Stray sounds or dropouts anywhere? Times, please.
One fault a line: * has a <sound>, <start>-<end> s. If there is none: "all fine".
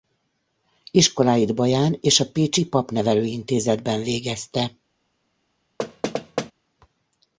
* has a thud, 5.8-6.5 s